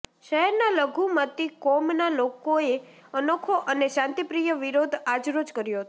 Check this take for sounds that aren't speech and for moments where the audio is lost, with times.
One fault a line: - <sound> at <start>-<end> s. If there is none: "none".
none